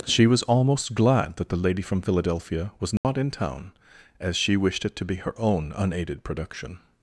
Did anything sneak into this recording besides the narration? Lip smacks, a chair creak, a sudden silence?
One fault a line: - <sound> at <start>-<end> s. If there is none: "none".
- dropout at 3.0-3.0 s